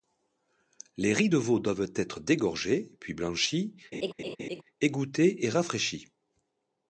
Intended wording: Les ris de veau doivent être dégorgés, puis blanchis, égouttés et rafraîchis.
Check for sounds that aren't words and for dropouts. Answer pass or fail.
fail